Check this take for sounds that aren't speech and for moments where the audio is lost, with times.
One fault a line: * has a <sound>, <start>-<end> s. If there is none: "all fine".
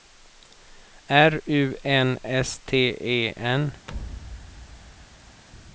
* has a thud, 3.9-5.4 s